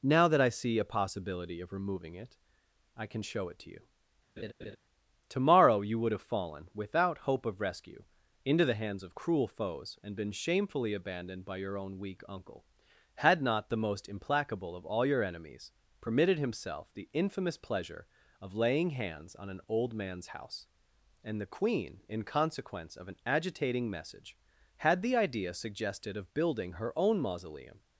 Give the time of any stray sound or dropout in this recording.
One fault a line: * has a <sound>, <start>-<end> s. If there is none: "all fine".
* has a laugh, 4.4-4.8 s